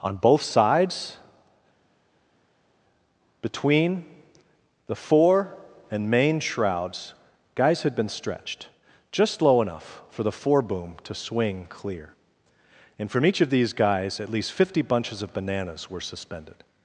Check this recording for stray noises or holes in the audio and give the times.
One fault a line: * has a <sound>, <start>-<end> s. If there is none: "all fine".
all fine